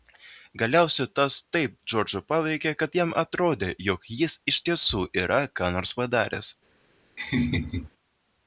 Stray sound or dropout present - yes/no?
yes